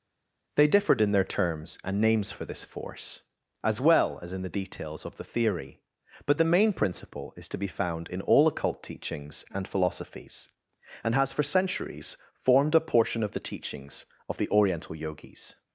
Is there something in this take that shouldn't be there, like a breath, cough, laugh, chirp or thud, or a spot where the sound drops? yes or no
no